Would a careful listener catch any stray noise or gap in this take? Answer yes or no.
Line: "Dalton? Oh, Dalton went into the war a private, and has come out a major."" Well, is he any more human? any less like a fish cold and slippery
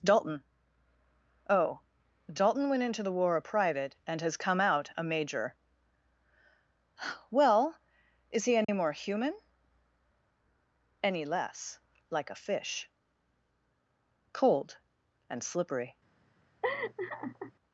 yes